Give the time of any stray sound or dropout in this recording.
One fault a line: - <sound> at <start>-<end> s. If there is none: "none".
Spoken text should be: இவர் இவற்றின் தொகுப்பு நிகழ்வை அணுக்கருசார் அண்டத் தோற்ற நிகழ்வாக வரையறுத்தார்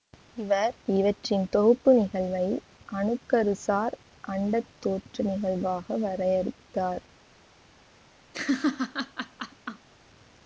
- laugh at 8.3-9.9 s